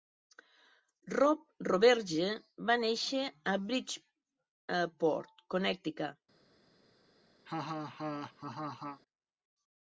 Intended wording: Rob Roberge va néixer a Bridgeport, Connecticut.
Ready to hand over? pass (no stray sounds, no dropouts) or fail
fail